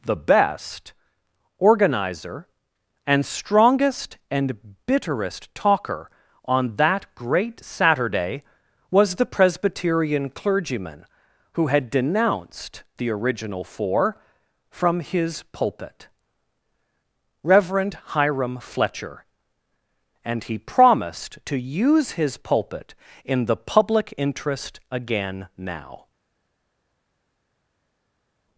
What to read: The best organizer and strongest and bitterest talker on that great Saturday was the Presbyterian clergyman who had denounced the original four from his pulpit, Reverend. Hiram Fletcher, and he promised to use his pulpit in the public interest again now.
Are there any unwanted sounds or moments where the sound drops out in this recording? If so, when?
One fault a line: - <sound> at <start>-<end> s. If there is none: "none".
none